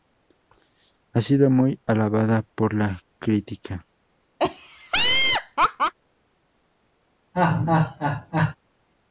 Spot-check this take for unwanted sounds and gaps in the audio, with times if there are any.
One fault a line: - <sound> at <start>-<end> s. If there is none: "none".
- laugh at 4.4-5.9 s
- laugh at 7.3-8.6 s